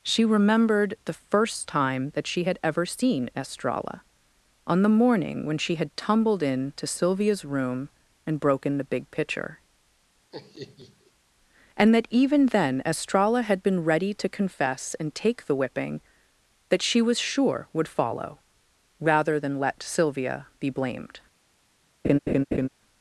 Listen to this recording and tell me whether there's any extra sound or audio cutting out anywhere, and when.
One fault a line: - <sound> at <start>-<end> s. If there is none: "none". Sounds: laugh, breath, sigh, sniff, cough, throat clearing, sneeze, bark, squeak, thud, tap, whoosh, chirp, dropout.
- laugh at 10.3-11.1 s
- laugh at 22.0-22.7 s